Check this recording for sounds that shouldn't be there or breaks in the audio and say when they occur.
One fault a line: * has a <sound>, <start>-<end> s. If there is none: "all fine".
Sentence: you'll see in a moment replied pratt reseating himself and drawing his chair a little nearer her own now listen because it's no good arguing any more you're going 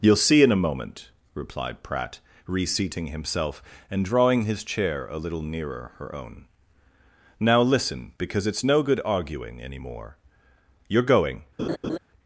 * has a laugh, 11.6-12.0 s